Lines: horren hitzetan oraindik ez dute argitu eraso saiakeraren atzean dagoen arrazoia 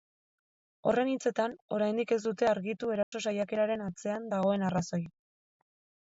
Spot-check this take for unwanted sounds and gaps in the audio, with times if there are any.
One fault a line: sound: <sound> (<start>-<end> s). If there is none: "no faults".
sound: dropout (3.0-3.1 s)